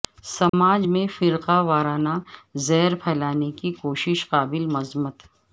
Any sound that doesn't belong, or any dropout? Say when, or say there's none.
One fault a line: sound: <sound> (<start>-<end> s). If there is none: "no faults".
sound: dropout (0.5-0.5 s)